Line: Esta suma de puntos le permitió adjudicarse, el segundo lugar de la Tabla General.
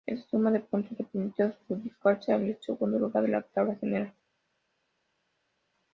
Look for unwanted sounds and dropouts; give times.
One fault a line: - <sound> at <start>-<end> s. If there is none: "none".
none